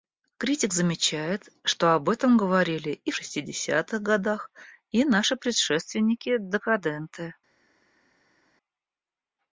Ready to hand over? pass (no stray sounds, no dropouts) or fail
pass